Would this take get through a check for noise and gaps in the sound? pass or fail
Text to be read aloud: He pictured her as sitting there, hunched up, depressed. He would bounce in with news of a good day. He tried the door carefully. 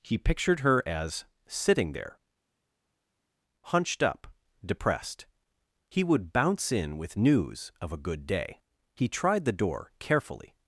pass